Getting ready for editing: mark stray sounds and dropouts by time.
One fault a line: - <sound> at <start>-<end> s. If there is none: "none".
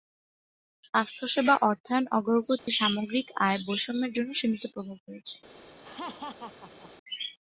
- dropout at 2.6-2.7 s
- laugh at 5.8-6.9 s